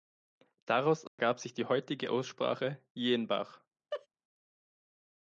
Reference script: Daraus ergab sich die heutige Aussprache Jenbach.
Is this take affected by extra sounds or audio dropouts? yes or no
yes